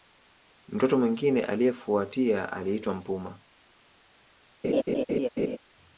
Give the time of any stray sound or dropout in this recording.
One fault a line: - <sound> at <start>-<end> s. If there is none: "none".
- laugh at 4.6-5.6 s